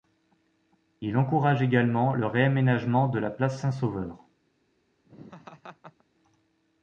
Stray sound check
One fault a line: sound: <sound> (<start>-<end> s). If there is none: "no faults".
sound: laugh (5.1-6.0 s)